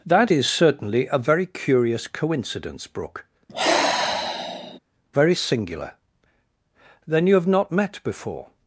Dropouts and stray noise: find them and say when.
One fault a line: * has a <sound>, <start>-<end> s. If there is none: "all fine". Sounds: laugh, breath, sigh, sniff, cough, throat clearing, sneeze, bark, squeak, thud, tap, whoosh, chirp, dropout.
* has a sigh, 3.5-4.8 s